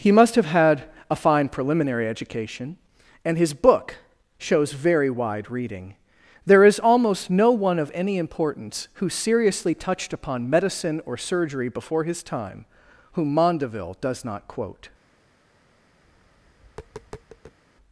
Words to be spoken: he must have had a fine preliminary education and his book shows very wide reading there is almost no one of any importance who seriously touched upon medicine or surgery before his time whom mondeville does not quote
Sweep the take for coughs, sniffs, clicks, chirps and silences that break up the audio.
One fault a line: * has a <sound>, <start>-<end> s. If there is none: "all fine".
* has a tap, 16.0-17.6 s